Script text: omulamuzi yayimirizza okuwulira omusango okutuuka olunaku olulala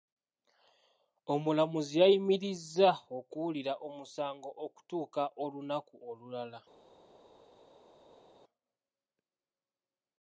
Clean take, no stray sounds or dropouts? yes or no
yes